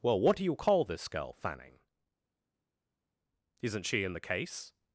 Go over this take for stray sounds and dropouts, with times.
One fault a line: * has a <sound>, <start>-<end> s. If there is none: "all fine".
all fine